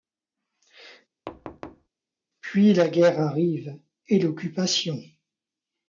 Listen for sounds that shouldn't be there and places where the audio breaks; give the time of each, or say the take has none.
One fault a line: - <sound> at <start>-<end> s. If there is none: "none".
- thud at 1.3-1.9 s